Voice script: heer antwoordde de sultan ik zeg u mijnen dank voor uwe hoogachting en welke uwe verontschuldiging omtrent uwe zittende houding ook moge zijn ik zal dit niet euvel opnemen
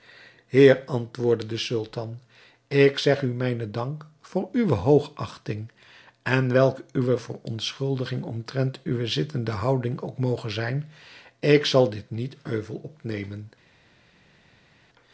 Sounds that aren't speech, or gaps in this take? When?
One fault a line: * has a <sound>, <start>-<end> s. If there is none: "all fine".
all fine